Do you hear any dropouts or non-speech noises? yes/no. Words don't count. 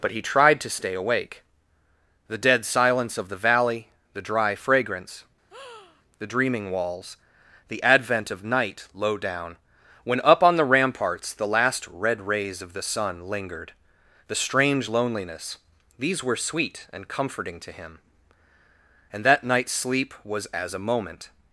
yes